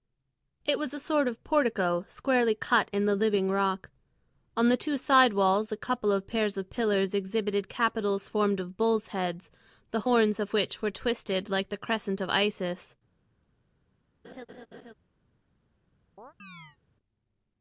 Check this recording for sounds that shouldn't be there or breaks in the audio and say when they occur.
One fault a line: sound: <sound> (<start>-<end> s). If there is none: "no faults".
sound: laugh (14.2-14.9 s)
sound: chirp (16.2-16.8 s)